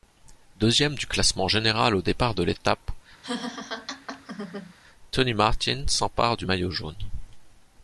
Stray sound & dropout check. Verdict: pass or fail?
fail